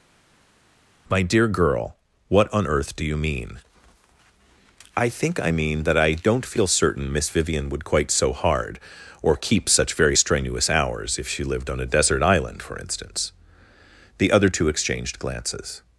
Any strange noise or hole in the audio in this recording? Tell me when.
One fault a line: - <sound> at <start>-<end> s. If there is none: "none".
none